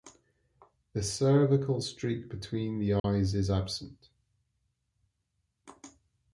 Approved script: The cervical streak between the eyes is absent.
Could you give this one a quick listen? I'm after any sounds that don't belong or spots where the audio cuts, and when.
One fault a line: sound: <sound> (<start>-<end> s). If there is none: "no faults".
sound: dropout (3.0-3.0 s)